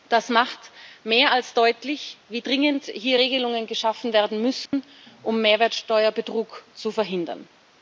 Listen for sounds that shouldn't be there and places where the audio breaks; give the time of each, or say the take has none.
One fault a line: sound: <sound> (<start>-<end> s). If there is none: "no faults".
sound: dropout (4.7-4.7 s)